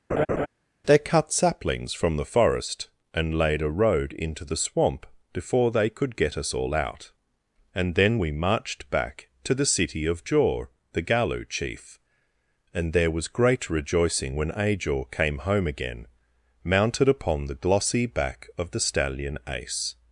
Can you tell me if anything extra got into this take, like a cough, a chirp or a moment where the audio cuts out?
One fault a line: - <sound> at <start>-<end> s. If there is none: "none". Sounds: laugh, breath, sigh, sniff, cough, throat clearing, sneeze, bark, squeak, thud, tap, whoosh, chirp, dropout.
- laugh at 0.1-0.5 s